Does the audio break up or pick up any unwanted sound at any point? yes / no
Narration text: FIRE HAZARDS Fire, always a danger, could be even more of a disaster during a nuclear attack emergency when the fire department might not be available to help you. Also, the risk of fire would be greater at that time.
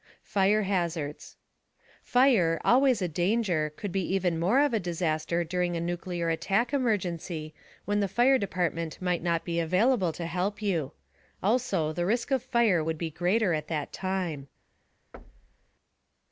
yes